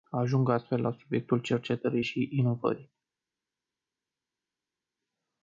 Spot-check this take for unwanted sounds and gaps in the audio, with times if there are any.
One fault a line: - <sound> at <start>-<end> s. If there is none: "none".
none